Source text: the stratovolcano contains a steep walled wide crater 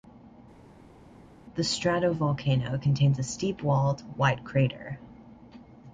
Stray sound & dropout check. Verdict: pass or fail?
pass